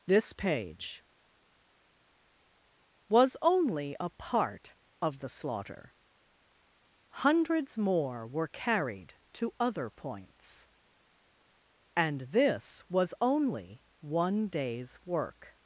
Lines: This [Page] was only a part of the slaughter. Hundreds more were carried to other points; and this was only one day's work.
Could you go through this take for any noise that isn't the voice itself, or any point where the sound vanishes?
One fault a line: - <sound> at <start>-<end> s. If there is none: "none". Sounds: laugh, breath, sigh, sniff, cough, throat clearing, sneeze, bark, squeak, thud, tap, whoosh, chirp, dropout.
none